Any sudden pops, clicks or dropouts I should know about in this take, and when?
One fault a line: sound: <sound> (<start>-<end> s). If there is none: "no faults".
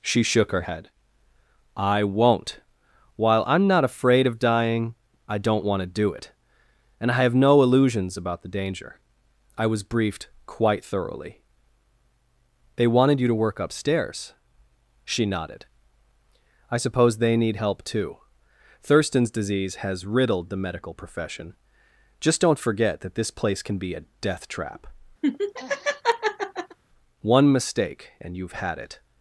sound: laugh (25.2-26.8 s)